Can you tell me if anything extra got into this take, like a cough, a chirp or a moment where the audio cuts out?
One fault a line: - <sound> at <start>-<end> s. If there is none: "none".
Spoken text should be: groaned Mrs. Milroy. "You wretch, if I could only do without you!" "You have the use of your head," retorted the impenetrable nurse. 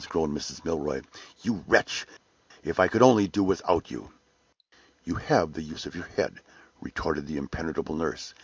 none